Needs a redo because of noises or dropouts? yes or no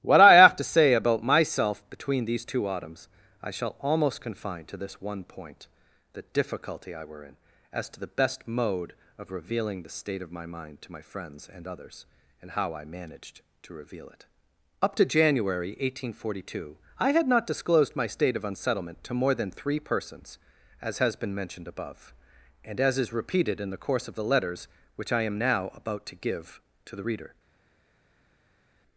no